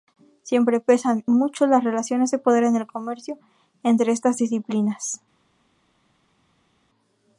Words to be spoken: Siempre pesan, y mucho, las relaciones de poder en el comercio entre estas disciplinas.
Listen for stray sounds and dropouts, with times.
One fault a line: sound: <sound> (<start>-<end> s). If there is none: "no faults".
no faults